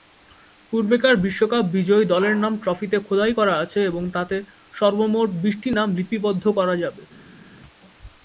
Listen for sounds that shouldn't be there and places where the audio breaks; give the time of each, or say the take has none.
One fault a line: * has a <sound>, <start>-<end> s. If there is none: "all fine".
all fine